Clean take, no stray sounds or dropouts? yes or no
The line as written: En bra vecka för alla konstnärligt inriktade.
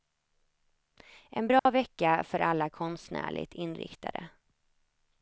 no